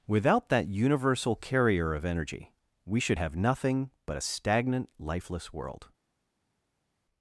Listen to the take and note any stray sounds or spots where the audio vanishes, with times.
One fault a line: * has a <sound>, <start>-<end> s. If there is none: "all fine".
all fine